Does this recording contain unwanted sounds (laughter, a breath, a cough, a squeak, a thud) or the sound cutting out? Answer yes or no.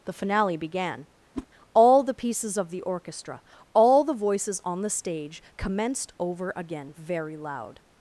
yes